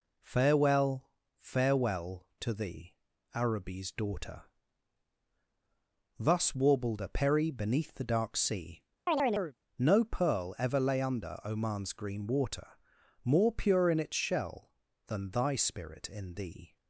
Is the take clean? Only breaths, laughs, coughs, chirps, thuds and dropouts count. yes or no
no